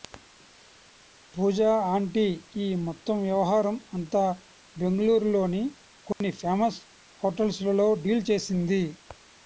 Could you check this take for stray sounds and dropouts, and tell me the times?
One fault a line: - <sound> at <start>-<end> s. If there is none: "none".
- dropout at 6.1-6.2 s